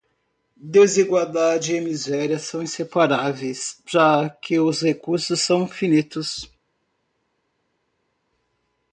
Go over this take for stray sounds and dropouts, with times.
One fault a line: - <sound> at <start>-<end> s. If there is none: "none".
none